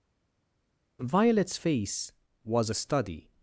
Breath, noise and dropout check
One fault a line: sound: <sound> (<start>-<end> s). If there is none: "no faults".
no faults